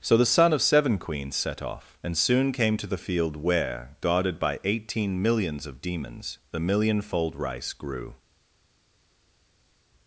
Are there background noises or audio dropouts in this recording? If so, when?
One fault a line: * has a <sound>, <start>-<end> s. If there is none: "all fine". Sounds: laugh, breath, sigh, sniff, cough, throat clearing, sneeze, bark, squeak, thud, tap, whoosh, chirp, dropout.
all fine